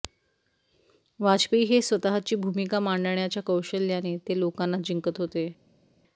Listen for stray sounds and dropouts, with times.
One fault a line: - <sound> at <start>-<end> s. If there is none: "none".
none